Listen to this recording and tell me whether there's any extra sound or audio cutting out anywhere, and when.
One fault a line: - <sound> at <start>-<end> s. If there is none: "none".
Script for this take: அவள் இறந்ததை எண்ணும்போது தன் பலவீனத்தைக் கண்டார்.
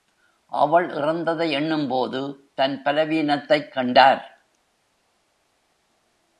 none